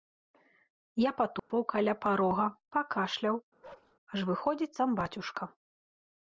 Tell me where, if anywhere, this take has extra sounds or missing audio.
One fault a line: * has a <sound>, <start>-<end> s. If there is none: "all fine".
* has a dropout, 1.4-1.5 s
* has a bark, 3.6-4.0 s